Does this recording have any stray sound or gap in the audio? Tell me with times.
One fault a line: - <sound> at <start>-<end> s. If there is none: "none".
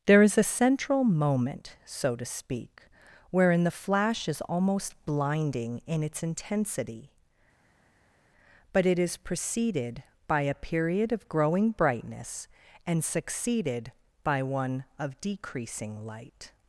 none